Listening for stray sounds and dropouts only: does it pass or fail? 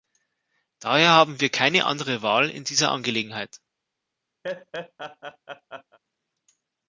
fail